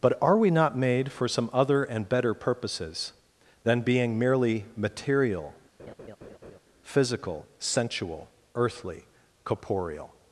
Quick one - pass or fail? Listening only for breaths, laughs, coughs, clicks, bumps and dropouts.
fail